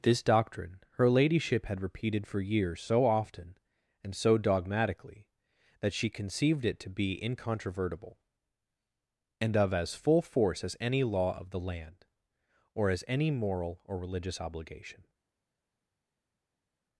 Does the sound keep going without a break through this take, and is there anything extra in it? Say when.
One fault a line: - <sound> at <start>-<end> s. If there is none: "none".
none